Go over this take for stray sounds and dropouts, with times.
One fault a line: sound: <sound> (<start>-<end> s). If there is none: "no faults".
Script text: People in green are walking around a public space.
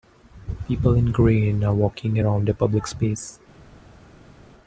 no faults